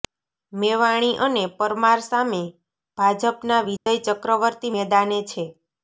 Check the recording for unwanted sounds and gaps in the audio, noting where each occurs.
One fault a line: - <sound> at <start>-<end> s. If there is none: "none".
- dropout at 3.8-3.9 s